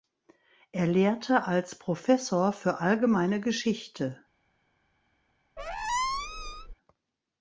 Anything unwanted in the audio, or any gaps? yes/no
yes